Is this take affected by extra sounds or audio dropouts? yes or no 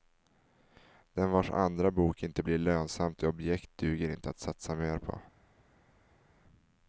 no